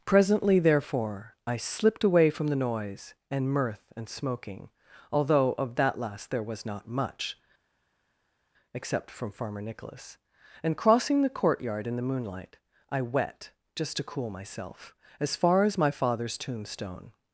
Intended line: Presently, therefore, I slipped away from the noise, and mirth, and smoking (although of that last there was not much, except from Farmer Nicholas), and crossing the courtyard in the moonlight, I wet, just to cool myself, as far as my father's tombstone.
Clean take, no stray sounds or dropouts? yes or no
yes